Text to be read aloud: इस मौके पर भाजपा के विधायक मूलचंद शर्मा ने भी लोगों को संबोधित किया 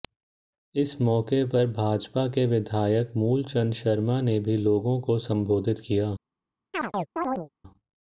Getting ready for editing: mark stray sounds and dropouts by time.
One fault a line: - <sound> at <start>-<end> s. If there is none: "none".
- chirp at 6.7-7.5 s